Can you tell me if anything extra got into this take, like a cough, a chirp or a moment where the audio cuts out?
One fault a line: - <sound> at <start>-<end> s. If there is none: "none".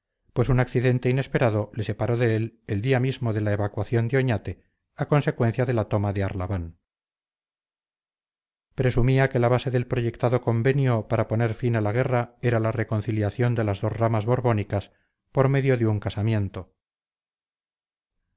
none